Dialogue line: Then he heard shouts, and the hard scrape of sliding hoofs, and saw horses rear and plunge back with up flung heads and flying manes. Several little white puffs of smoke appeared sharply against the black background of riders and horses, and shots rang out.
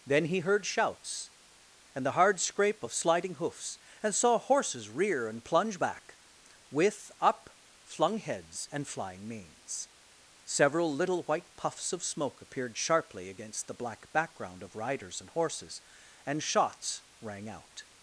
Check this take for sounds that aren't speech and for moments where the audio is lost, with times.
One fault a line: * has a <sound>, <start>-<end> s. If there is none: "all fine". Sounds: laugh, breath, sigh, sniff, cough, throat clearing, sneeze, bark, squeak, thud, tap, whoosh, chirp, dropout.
all fine